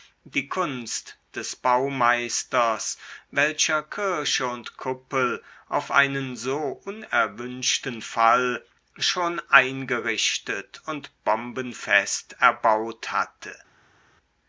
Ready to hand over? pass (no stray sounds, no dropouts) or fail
pass